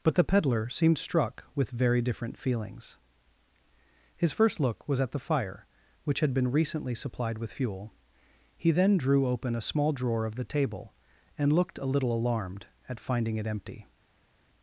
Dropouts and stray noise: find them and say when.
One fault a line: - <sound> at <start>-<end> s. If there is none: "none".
none